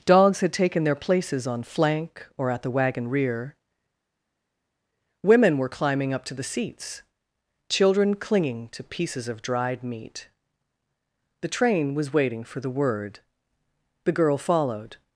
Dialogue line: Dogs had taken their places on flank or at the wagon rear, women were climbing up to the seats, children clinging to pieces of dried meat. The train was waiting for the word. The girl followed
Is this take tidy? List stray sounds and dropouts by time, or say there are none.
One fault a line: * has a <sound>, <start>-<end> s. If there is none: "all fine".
all fine